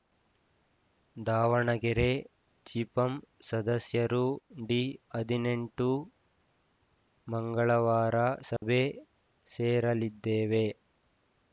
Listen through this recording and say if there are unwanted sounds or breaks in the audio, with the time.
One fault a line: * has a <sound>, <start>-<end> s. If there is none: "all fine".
* has a dropout, 8.6-8.6 s